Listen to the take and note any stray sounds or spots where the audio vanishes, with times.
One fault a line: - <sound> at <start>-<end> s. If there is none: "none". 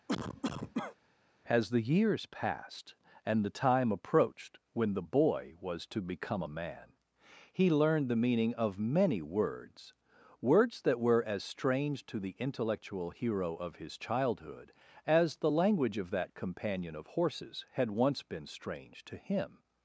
- cough at 0.1-1.0 s